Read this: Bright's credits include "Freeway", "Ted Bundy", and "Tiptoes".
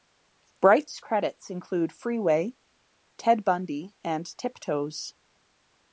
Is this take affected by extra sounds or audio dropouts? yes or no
no